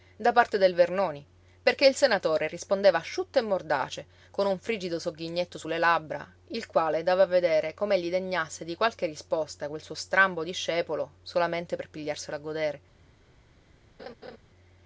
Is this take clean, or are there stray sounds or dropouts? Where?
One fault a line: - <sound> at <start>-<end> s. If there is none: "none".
- laugh at 14.0-14.4 s